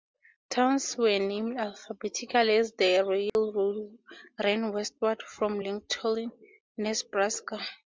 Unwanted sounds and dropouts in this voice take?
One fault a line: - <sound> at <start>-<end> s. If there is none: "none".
- dropout at 3.3-3.4 s